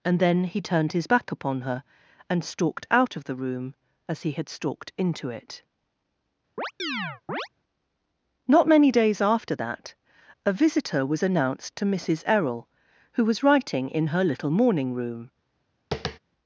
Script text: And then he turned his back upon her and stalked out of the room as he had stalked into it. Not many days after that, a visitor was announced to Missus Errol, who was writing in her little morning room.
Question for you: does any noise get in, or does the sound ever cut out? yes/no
yes